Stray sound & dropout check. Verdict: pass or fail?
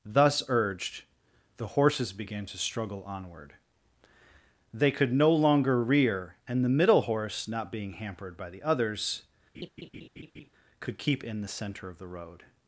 fail